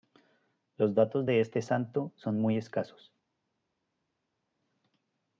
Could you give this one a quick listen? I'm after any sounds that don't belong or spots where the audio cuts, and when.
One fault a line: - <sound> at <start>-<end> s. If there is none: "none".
none